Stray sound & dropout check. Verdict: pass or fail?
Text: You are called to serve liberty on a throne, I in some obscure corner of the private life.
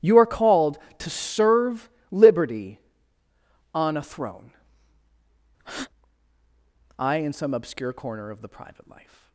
fail